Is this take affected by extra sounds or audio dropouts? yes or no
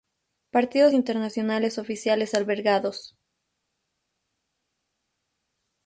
no